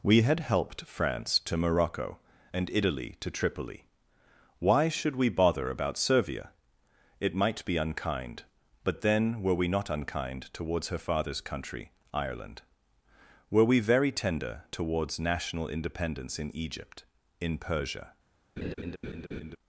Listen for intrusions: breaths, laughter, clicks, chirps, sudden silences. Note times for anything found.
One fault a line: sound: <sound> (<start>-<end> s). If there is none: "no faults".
sound: laugh (18.6-19.6 s)